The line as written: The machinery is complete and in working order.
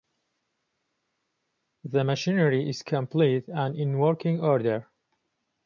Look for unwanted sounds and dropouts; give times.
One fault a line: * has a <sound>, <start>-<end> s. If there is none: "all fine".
all fine